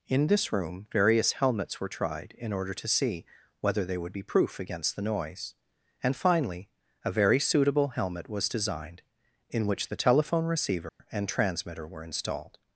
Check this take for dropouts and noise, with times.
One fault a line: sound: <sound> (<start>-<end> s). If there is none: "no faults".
sound: dropout (10.9-11.0 s)